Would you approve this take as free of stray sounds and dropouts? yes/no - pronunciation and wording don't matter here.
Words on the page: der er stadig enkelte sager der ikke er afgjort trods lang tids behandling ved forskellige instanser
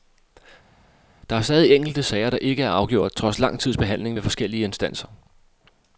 yes